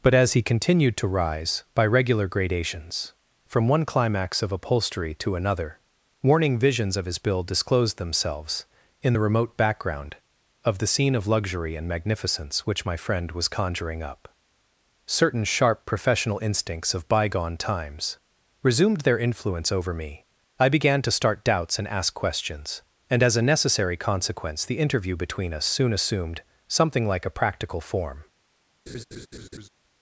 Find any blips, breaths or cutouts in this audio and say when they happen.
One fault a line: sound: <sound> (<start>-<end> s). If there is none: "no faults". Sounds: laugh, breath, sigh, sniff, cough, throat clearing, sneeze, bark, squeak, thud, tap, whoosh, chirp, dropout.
sound: laugh (28.9-29.7 s)